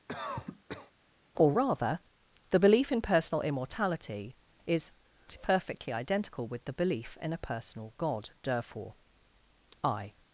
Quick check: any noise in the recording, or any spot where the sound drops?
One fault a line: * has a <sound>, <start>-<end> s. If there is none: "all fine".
* has a cough, 0.1-0.9 s